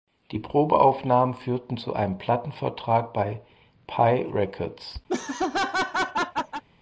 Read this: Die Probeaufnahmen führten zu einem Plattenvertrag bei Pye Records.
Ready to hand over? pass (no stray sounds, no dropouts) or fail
fail